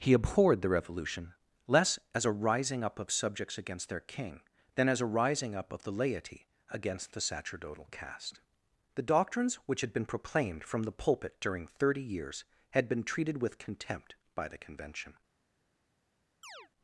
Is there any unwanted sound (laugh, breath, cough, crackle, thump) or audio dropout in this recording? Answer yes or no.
yes